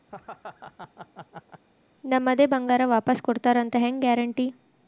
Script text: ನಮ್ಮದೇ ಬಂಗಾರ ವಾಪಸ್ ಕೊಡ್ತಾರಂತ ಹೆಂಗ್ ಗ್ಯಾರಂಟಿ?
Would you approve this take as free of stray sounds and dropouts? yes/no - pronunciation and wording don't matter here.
no